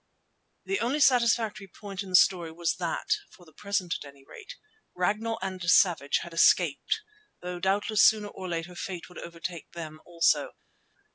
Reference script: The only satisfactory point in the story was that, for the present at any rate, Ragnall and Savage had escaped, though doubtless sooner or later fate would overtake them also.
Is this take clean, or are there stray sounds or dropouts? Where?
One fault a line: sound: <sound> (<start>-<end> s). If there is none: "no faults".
no faults